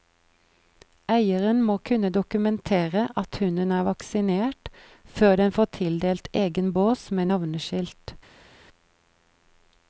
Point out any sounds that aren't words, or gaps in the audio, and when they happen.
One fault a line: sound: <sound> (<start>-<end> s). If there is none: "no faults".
no faults